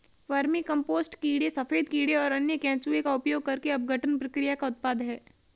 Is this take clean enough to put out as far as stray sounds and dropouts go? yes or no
yes